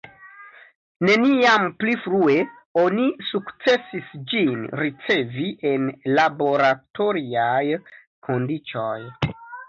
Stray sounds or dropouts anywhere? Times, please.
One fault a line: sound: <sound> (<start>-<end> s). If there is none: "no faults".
no faults